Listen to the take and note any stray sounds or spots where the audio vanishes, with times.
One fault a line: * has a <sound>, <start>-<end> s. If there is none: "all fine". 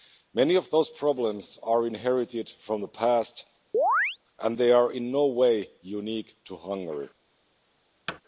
* has a chirp, 3.7-4.2 s
* has a thud, 8.1-8.2 s